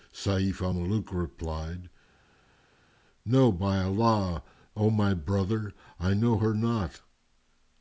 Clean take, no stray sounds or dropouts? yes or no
yes